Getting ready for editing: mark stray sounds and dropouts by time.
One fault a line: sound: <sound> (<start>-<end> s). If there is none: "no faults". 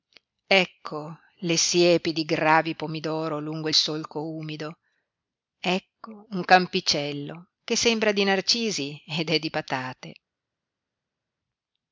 no faults